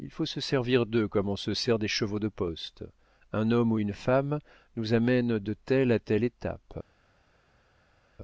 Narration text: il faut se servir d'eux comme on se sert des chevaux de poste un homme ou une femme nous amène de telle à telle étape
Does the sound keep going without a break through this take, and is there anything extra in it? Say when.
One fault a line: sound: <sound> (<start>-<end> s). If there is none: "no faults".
no faults